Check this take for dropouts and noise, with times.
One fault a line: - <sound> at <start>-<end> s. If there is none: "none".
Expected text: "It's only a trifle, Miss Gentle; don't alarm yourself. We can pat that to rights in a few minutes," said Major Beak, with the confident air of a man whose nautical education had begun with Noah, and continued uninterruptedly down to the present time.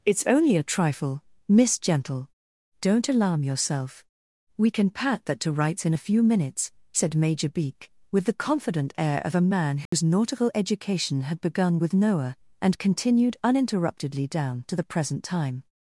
- dropout at 9.9-9.9 s